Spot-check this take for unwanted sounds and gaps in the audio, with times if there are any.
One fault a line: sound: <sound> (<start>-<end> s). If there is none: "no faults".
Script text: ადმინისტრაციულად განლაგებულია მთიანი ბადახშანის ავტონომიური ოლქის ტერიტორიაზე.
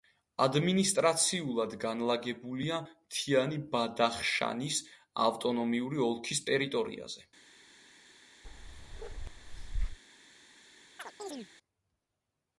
sound: bark (8.4-10.0 s)
sound: chirp (11.0-11.5 s)